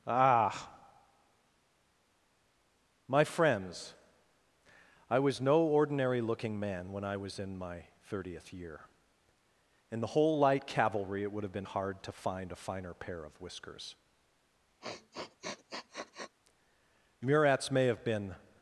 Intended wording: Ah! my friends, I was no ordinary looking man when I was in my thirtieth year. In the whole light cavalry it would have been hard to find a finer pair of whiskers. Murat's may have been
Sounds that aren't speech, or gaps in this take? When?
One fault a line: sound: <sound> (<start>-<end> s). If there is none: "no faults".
sound: sniff (14.8-16.4 s)